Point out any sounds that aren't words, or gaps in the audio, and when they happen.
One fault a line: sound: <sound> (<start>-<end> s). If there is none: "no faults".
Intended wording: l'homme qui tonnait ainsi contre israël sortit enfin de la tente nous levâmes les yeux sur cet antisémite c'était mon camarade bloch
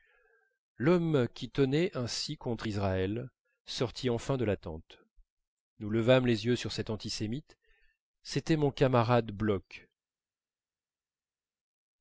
no faults